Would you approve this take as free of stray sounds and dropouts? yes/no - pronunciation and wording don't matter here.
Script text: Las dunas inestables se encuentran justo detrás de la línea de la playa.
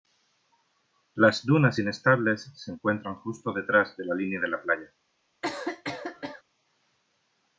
no